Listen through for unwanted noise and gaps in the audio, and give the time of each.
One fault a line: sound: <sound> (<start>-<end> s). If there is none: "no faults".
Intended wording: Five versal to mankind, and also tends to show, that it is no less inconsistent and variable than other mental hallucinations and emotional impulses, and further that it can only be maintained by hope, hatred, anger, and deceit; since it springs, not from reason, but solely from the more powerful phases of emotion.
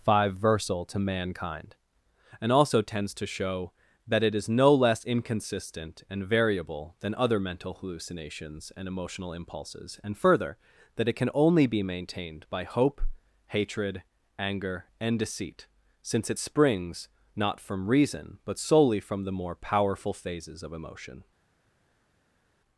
no faults